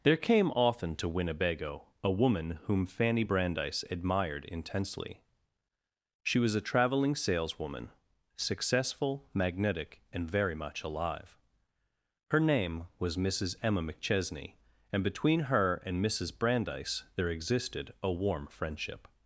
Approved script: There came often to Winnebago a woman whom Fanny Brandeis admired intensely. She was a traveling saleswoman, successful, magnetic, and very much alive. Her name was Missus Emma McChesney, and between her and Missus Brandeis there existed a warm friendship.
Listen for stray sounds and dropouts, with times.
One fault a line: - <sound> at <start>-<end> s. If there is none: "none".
none